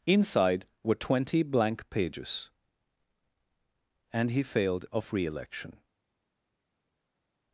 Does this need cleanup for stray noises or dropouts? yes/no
no